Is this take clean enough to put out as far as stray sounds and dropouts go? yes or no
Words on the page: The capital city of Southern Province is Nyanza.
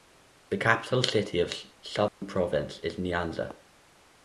no